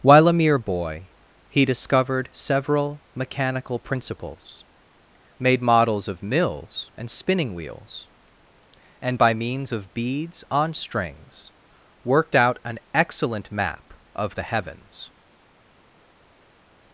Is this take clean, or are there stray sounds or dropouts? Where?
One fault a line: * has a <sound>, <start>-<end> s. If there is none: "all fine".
all fine